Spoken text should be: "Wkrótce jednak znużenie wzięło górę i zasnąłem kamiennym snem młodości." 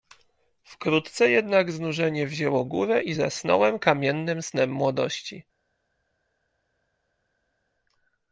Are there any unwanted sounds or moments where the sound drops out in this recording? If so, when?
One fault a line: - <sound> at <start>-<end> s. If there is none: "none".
none